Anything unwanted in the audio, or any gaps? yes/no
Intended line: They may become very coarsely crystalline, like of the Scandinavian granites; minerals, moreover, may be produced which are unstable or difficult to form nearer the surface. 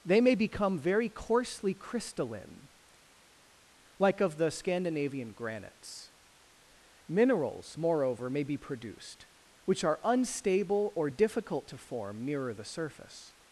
no